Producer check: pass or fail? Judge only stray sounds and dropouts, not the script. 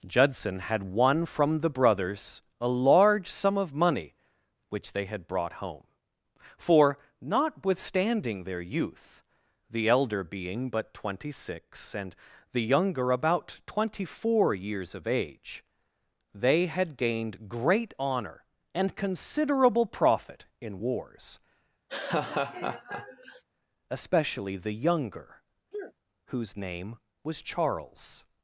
fail